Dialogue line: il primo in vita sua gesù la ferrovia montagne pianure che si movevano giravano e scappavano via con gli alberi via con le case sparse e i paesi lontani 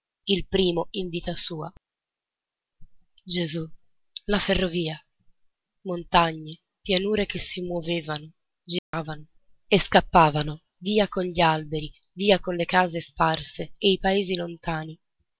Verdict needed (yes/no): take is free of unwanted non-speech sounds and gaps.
no